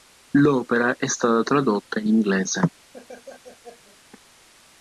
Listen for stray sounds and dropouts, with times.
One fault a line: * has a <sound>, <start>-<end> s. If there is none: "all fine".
* has a laugh, 2.9-4.0 s